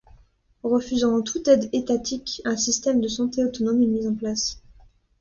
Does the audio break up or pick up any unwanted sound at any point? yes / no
no